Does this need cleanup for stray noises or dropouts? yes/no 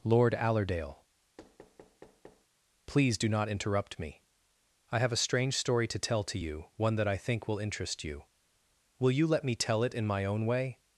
yes